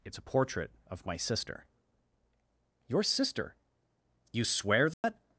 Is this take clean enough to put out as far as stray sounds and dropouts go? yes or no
no